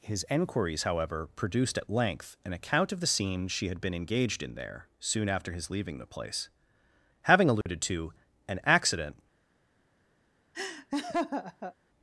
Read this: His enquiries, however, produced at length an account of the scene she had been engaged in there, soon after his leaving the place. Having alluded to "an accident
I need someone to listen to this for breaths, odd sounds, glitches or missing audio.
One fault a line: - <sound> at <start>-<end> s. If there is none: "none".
- dropout at 7.6-7.7 s
- laugh at 10.5-11.7 s